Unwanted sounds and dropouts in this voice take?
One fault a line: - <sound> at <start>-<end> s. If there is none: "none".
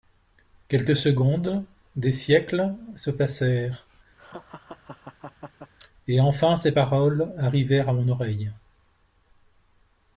- laugh at 4.2-5.7 s